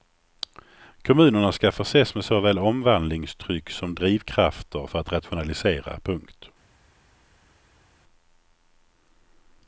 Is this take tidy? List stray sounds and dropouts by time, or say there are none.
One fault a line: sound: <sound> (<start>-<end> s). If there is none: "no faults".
no faults